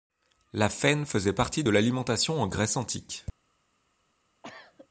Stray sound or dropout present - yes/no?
yes